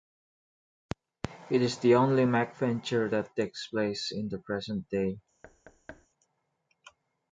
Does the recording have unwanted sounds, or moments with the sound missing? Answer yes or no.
yes